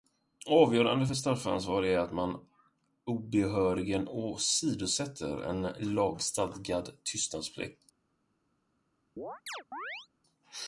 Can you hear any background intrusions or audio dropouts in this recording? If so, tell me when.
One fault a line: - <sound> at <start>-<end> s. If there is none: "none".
- chirp at 9.2-10.1 s